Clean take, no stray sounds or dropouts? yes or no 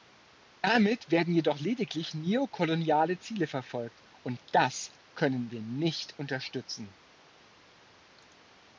yes